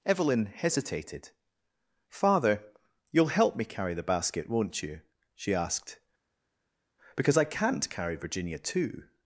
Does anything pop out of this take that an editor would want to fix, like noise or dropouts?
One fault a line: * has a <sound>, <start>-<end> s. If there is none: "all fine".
all fine